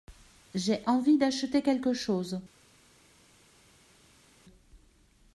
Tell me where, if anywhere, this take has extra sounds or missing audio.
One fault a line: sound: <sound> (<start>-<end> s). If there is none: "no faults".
no faults